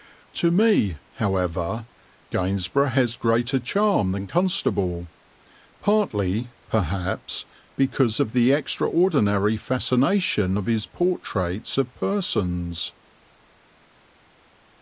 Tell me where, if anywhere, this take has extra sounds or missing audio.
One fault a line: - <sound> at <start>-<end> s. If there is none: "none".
none